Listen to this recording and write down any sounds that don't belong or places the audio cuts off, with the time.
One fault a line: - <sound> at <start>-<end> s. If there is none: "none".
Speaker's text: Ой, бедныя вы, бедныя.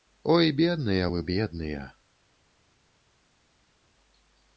none